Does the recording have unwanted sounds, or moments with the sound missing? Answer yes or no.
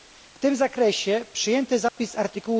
yes